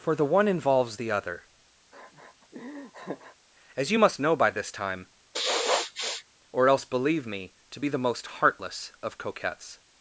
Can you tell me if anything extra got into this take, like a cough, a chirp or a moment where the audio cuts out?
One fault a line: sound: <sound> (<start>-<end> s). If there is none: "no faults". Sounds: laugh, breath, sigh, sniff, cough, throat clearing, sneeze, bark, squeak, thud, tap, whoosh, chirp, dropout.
sound: laugh (1.9-3.4 s)
sound: sniff (5.3-6.2 s)